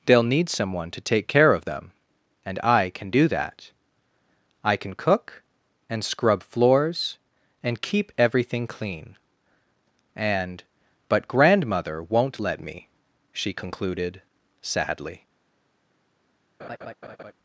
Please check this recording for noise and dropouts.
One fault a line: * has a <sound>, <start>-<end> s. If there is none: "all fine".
* has a laugh, 16.6-17.3 s